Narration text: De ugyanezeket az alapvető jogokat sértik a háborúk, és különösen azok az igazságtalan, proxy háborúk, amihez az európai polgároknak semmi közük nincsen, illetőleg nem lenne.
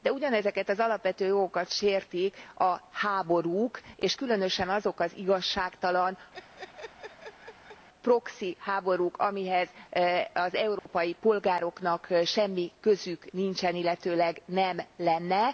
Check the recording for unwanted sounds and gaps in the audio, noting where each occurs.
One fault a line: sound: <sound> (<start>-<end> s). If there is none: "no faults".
sound: laugh (6.3-7.9 s)
sound: dropout (10.8-10.9 s)